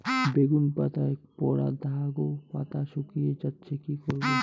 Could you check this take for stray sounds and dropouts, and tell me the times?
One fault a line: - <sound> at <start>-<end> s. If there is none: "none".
none